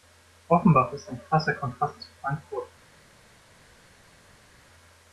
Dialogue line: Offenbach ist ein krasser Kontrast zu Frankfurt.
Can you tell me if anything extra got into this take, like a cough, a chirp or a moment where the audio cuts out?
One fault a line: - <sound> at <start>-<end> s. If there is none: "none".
none